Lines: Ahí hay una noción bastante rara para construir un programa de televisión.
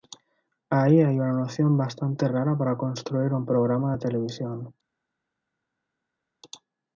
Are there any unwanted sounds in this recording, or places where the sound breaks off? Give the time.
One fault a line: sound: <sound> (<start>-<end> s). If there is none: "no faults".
no faults